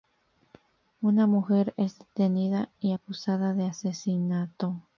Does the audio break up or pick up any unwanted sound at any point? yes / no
no